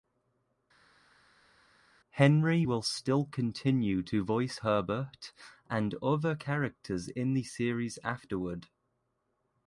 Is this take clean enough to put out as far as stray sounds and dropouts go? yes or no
yes